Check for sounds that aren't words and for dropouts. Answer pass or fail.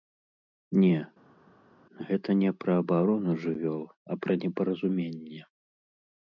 pass